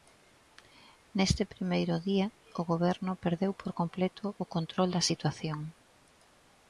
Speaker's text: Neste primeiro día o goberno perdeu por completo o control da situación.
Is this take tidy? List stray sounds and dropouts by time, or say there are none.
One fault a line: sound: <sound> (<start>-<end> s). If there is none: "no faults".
no faults